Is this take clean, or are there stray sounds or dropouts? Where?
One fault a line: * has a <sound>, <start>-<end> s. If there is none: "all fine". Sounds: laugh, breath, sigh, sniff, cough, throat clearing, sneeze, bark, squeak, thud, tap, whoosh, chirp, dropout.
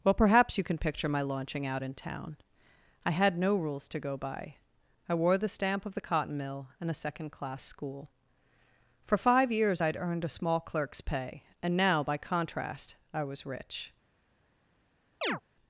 * has a chirp, 15.2-15.4 s